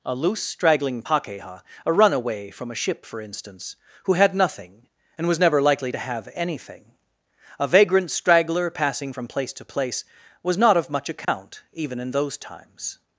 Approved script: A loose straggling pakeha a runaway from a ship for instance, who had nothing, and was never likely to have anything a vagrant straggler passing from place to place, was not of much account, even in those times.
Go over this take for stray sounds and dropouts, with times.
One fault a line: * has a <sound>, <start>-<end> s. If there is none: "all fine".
* has a dropout, 11.2-11.3 s